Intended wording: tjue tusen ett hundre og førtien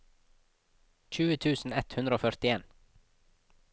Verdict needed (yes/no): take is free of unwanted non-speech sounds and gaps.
yes